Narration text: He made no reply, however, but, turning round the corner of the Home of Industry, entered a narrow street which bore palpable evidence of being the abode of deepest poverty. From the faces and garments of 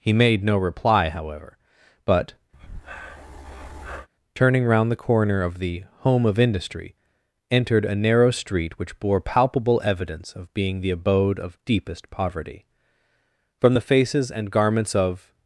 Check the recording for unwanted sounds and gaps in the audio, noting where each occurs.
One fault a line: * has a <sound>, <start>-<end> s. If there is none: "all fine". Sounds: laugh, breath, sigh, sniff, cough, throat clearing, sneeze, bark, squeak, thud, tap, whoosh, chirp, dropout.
* has a breath, 2.5-4.1 s